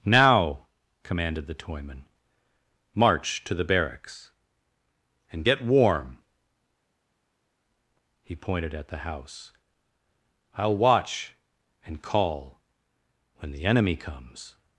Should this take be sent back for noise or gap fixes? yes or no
no